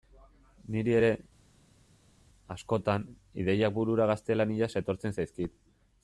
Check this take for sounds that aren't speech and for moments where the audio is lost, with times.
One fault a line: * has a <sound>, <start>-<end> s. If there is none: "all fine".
all fine